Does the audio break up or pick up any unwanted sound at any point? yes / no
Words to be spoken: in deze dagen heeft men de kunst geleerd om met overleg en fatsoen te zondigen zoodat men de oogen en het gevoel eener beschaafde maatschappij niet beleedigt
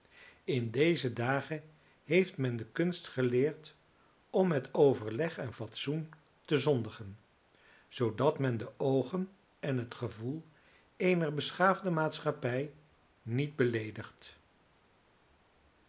no